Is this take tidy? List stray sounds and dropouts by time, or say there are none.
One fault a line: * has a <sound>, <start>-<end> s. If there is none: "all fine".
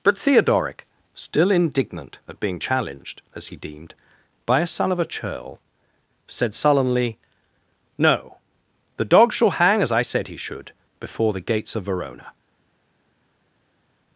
all fine